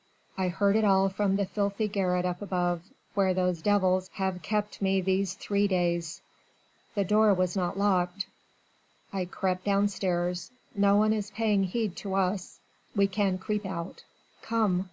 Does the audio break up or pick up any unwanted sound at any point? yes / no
no